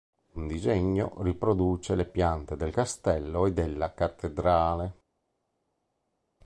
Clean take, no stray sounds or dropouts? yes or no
yes